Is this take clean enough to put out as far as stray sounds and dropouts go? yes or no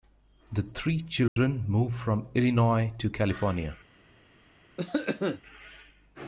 no